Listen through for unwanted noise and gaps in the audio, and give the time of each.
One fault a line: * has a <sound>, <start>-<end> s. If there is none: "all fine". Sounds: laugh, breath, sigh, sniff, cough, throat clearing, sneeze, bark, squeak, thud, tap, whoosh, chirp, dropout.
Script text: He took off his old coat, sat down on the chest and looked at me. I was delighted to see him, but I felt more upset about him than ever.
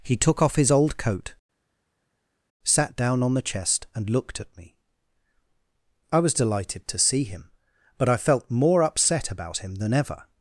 all fine